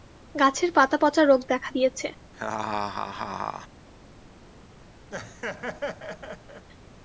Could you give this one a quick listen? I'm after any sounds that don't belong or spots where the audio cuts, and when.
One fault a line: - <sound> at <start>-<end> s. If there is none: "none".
- laugh at 2.3-3.7 s
- laugh at 5.1-6.7 s